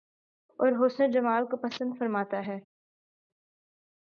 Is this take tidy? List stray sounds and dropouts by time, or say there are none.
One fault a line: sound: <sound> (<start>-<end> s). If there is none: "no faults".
no faults